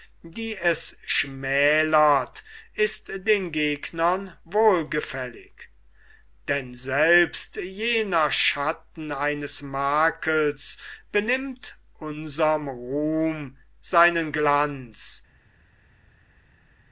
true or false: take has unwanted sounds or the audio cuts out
false